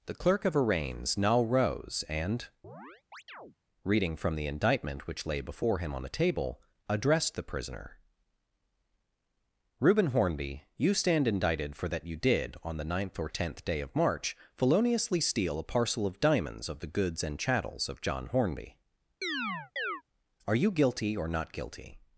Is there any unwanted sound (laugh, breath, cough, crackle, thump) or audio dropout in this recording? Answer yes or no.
yes